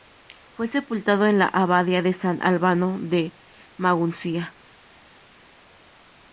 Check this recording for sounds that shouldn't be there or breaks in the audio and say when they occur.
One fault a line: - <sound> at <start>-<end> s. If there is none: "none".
none